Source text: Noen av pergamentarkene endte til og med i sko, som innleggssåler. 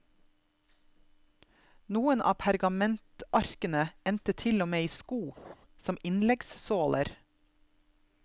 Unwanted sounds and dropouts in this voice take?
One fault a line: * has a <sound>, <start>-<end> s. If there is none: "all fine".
* has a laugh, 5.4-5.6 s